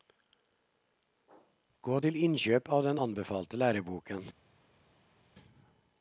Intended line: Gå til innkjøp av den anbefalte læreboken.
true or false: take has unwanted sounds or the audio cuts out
false